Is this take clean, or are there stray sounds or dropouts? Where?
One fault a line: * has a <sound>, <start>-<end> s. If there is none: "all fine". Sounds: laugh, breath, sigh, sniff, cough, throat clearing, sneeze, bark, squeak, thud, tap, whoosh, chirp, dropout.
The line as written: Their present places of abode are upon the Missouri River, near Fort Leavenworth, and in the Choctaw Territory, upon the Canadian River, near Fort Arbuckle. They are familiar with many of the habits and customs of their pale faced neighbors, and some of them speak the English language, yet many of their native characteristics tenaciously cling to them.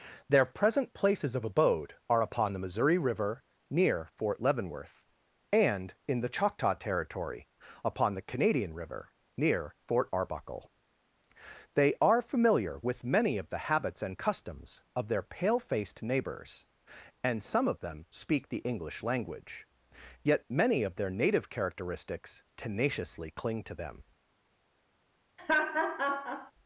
* has a laugh, 25.4-26.5 s